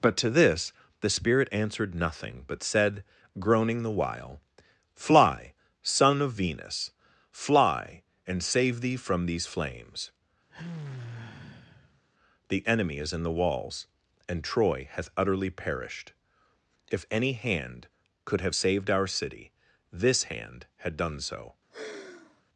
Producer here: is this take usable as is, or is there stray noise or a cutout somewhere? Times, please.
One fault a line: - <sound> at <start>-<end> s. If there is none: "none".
- sigh at 10.5-12.0 s
- sigh at 21.7-22.4 s